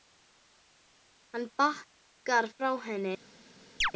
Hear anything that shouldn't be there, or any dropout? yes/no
yes